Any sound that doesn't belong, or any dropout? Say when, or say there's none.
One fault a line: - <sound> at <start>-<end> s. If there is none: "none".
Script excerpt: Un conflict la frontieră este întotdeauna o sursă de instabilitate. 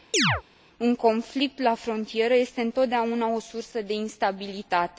- chirp at 0.1-0.4 s